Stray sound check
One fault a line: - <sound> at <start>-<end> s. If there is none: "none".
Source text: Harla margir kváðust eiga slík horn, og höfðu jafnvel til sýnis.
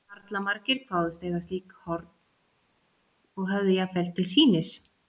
none